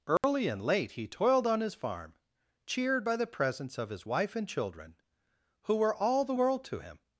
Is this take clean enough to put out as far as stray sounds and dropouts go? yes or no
no